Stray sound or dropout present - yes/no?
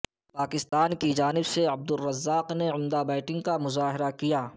yes